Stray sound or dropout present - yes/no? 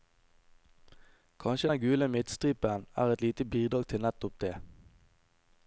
no